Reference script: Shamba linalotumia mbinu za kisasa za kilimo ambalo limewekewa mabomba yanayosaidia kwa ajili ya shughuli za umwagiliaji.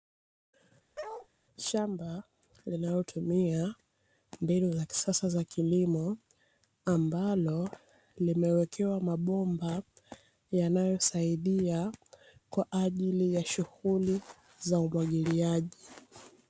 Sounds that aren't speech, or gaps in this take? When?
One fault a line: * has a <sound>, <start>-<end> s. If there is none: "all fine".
* has a bark, 1.0-1.3 s